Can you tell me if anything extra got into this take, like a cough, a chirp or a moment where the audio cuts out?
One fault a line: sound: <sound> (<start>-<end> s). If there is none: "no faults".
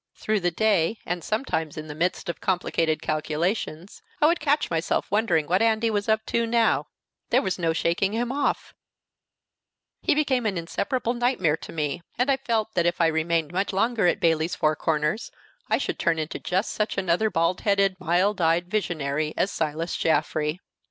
no faults